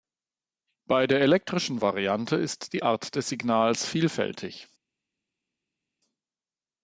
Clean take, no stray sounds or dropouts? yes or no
yes